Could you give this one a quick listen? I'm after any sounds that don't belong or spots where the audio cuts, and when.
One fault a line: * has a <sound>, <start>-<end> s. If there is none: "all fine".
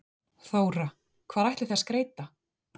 all fine